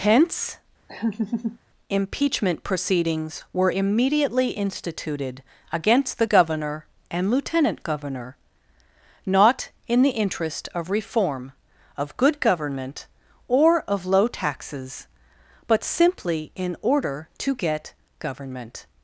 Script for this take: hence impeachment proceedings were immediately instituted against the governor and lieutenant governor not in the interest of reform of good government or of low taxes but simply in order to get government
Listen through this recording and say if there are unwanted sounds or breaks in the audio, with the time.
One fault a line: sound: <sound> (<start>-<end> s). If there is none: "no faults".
sound: laugh (0.9-1.6 s)